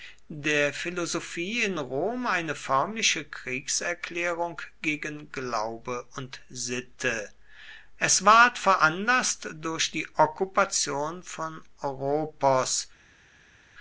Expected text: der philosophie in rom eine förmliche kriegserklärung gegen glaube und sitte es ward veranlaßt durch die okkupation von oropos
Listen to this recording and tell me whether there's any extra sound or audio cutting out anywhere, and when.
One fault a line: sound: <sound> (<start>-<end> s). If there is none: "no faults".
no faults